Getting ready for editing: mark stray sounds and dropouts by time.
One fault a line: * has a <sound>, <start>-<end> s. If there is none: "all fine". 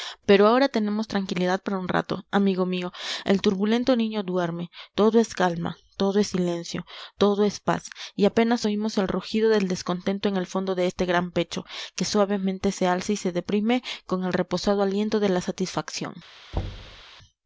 * has a thud, 16.5-17.0 s